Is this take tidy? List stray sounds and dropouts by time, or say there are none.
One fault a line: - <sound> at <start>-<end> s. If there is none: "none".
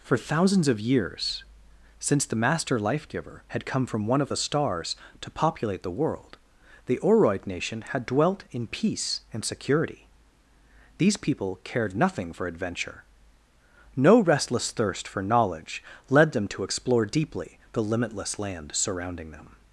none